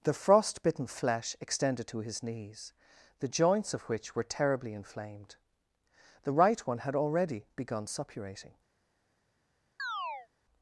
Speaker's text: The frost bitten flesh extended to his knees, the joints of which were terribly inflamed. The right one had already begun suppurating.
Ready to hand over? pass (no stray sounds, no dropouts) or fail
fail